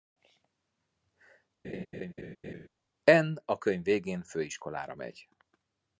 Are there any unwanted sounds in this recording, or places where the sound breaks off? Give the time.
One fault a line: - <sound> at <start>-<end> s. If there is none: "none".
- laugh at 1.6-2.7 s